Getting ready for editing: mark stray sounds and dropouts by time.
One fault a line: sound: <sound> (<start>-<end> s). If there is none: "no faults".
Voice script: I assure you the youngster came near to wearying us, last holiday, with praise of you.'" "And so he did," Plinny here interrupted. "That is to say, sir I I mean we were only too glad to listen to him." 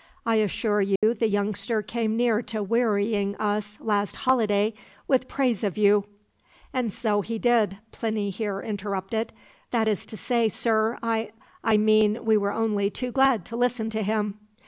sound: dropout (1.0-1.0 s)